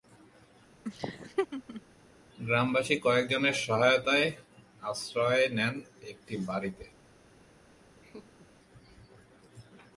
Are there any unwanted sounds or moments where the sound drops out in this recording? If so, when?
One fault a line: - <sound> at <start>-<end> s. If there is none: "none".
- laugh at 0.8-1.8 s
- laugh at 8.0-8.5 s